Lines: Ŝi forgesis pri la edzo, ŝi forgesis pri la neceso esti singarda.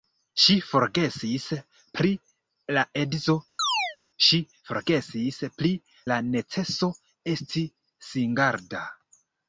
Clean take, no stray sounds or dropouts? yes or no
no